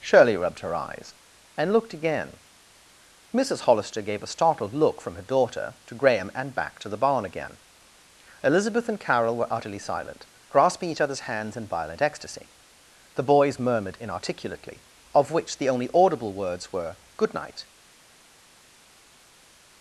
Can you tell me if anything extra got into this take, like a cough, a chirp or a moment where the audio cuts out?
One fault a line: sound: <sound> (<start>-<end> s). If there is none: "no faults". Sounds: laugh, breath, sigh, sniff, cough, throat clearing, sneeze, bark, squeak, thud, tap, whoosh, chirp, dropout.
no faults